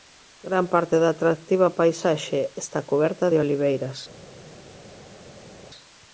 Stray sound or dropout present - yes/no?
no